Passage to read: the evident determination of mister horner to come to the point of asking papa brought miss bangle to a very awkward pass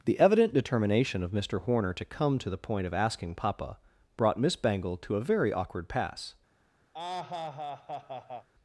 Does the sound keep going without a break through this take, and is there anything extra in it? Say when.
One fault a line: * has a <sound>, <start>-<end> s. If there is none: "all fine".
* has a laugh, 6.9-8.5 s